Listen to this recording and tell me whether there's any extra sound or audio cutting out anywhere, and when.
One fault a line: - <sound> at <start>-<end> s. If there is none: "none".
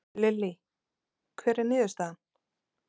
none